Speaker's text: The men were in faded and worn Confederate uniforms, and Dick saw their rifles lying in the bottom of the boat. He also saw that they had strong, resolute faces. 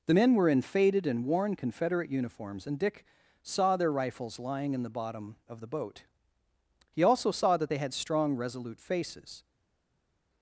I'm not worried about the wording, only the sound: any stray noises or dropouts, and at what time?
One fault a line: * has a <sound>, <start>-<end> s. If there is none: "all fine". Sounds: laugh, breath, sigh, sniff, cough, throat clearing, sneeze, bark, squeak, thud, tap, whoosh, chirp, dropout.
all fine